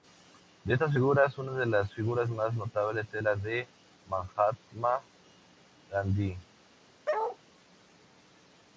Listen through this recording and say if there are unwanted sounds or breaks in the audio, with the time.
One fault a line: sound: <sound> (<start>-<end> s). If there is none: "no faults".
sound: bark (7.1-7.4 s)